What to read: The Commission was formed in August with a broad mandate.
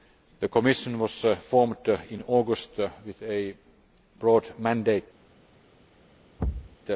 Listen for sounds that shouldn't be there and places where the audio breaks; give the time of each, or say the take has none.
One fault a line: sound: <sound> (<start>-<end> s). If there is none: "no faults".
sound: thud (6.4-6.8 s)